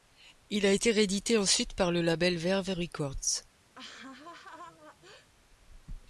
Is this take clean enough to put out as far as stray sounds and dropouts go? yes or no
no